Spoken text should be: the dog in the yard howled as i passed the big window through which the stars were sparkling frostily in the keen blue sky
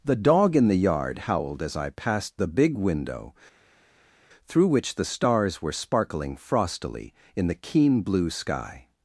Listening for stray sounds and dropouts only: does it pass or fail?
pass